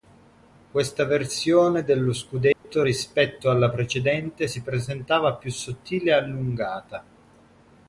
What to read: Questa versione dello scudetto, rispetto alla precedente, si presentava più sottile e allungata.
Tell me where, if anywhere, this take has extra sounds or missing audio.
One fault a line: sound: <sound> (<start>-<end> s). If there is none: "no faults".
sound: dropout (2.5-2.6 s)